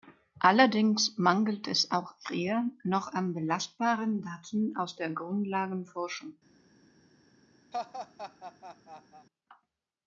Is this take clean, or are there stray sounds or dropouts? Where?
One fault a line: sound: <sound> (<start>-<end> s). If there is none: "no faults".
sound: laugh (7.7-9.3 s)